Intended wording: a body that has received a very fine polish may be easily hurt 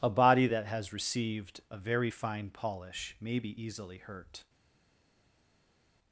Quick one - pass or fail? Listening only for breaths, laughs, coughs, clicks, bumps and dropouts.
pass